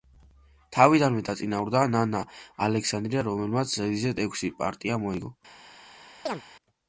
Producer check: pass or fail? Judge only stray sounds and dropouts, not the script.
fail